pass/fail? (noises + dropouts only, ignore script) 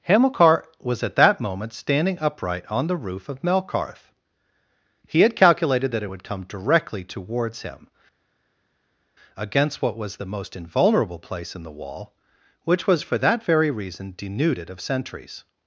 pass